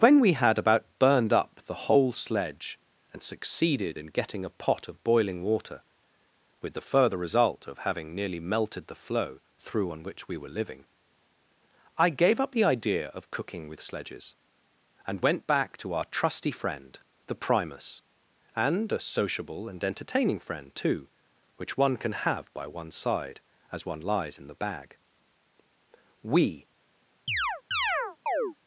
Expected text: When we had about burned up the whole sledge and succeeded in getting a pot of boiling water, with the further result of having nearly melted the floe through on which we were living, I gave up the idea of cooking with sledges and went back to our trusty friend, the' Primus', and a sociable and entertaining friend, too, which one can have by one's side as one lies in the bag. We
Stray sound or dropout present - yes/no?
yes